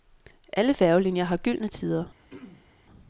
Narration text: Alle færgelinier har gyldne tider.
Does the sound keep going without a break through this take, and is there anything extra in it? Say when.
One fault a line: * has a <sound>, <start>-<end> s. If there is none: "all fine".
* has a throat clearing, 2.2-2.8 s